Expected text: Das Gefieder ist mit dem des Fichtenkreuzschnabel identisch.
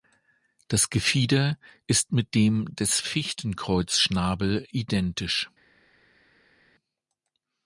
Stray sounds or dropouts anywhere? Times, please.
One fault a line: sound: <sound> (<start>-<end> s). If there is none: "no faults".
no faults